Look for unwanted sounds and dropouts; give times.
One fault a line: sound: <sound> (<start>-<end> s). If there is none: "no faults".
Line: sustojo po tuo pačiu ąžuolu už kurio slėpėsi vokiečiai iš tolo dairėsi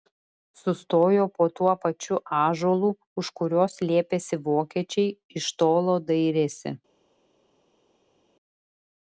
no faults